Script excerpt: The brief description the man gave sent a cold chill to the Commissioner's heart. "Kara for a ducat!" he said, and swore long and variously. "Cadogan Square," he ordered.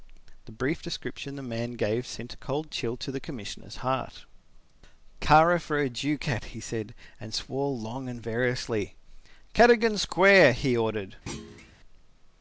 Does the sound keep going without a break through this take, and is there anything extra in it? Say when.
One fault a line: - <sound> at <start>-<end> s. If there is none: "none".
- thud at 11.3-11.7 s